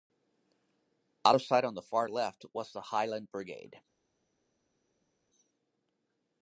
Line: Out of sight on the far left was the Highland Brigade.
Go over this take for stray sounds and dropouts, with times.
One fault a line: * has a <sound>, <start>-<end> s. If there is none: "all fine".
all fine